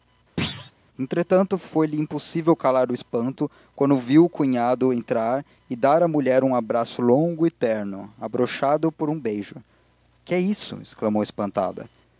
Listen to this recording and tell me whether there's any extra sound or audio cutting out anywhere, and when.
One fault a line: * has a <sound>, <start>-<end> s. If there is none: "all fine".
* has a thud, 0.4-0.7 s